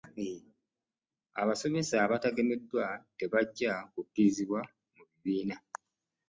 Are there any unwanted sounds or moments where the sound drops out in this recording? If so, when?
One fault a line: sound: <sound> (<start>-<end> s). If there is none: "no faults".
no faults